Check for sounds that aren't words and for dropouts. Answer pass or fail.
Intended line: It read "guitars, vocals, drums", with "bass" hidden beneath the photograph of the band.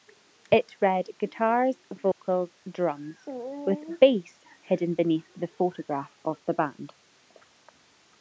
fail